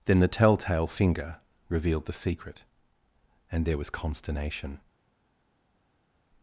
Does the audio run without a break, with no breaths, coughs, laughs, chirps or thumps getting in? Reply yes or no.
yes